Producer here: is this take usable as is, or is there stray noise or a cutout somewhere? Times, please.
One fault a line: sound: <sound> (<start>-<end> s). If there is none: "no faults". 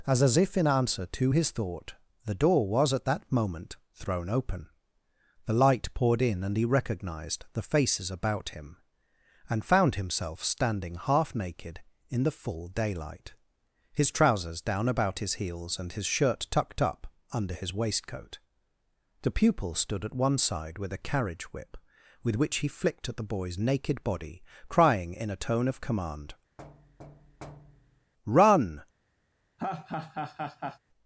sound: thud (26.6-28.1 s)
sound: laugh (29.6-30.8 s)